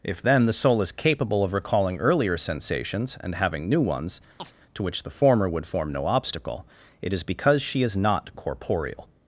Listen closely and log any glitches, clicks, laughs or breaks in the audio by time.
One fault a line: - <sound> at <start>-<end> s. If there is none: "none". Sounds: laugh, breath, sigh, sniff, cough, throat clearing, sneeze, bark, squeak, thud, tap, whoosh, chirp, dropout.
- chirp at 4.4-4.5 s